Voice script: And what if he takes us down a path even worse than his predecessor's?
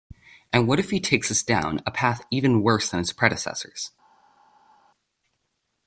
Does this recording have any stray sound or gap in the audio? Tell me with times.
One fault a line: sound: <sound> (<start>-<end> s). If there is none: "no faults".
no faults